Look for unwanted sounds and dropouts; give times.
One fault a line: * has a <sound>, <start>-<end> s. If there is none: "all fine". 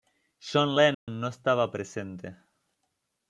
* has a dropout, 0.9-1.1 s